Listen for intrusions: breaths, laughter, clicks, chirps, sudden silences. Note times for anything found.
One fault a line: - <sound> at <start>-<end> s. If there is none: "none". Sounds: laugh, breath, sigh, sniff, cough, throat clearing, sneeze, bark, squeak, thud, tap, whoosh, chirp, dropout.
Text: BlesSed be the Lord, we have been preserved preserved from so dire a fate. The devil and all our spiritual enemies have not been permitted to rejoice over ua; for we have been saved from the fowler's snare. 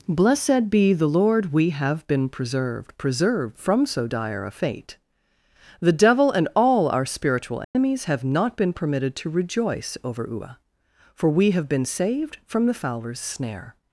- dropout at 7.6-7.8 s